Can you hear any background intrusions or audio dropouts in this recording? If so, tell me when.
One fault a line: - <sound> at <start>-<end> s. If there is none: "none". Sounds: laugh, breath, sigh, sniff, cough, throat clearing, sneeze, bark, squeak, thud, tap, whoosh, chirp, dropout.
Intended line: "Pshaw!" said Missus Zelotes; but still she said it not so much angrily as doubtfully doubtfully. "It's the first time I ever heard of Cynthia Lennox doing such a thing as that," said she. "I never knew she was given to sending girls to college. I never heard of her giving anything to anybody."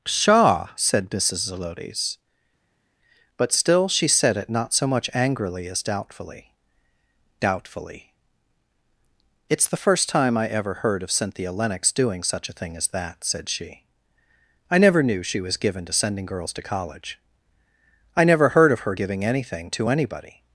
none